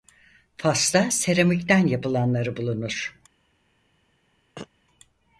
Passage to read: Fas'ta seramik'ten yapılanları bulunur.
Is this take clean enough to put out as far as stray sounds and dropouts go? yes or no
no